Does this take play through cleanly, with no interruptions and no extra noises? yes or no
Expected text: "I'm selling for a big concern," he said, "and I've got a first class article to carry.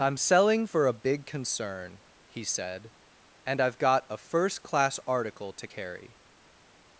yes